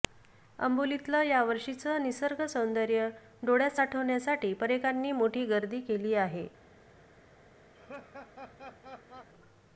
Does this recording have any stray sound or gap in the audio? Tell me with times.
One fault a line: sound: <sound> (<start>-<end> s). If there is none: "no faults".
sound: laugh (7.7-9.3 s)